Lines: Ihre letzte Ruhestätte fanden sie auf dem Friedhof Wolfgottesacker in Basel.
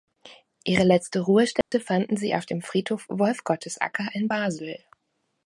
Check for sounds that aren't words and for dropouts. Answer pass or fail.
fail